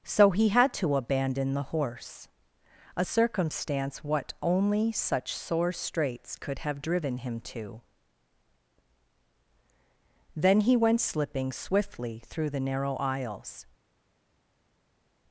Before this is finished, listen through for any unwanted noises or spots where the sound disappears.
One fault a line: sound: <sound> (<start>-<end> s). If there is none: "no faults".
no faults